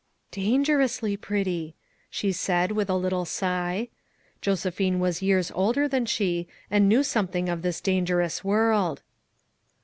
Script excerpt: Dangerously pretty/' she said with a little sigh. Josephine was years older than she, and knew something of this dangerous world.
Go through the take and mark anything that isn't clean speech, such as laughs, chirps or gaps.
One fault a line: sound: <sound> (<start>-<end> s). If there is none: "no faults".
no faults